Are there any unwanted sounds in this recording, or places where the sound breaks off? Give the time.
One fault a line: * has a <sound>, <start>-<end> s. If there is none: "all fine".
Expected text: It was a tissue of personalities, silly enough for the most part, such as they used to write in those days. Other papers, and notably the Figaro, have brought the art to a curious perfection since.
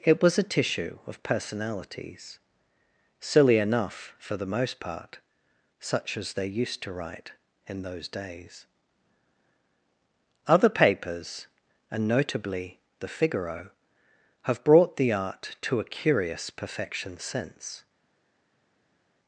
all fine